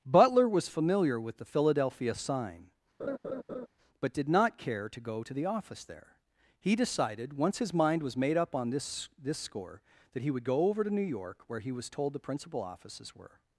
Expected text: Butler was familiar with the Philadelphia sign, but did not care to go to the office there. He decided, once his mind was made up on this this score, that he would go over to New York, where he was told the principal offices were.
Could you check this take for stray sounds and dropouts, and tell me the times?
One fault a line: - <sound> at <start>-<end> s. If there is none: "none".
- laugh at 3.0-3.7 s